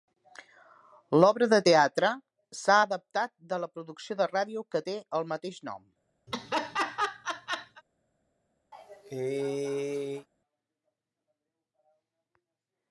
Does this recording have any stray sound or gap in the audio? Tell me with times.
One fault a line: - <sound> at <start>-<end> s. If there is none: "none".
- laugh at 6.3-7.8 s
- cough at 8.7-10.3 s